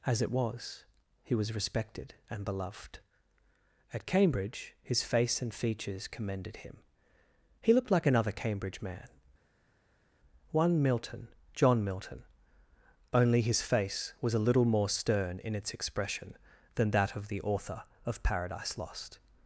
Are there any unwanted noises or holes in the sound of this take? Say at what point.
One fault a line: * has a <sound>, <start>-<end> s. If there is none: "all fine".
all fine